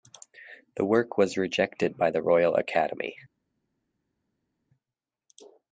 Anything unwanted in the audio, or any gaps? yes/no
no